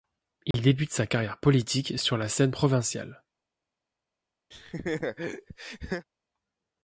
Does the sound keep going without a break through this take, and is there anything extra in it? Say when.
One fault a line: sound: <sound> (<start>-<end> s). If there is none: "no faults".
sound: dropout (0.5-0.5 s)
sound: laugh (4.5-6.1 s)